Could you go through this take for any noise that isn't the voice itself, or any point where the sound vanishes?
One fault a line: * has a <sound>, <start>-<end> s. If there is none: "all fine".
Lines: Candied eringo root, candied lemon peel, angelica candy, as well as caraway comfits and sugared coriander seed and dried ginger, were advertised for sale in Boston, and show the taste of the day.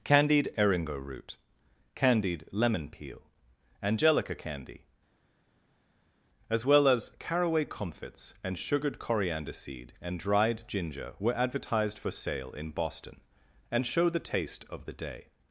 all fine